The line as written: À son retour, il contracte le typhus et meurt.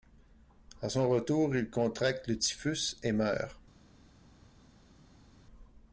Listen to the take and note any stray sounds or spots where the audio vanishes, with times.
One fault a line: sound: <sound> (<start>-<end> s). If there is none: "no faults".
no faults